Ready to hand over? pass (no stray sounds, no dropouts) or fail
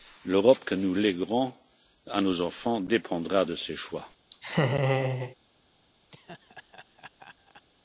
fail